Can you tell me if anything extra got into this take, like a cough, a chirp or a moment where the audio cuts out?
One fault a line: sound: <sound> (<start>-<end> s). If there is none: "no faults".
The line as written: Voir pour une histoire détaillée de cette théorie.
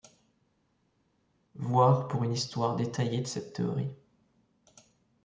no faults